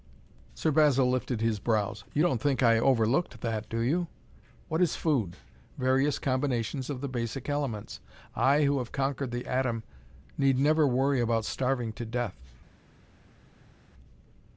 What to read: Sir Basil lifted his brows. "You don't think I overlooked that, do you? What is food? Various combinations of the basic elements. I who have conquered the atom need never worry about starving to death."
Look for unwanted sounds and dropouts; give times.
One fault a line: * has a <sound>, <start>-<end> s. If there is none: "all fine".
all fine